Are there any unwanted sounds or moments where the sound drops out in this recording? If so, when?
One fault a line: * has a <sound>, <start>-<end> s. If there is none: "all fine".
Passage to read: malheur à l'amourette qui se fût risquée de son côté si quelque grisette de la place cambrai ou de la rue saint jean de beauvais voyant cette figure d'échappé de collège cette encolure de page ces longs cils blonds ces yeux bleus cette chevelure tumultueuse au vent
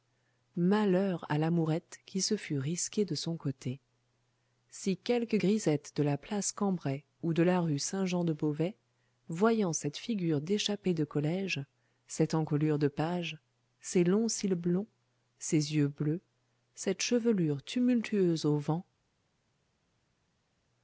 all fine